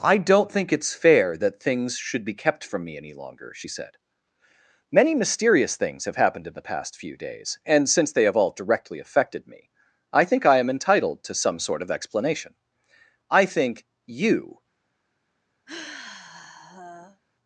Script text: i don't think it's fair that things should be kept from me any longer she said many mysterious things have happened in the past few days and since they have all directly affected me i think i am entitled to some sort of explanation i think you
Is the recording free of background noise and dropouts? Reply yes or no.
no